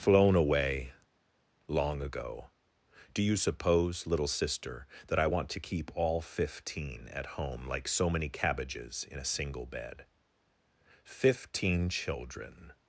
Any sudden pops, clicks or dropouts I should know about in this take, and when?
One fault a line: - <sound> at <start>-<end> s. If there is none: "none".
none